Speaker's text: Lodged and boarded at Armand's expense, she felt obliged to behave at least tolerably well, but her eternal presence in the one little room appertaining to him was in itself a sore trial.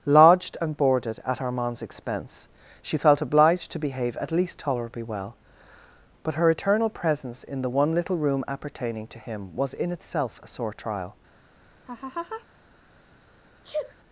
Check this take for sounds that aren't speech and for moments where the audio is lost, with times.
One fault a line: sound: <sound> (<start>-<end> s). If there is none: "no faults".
sound: laugh (11.9-12.5 s)
sound: sneeze (13.6-14.0 s)